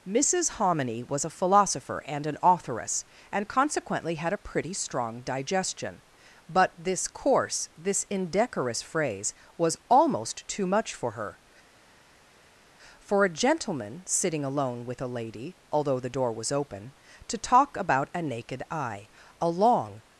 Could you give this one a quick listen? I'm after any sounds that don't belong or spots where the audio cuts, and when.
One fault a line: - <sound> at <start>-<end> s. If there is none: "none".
none